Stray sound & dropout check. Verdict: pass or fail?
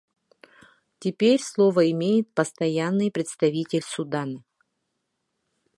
pass